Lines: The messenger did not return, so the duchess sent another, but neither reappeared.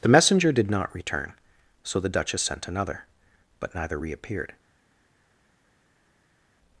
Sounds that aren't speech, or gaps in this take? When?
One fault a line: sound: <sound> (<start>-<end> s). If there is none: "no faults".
no faults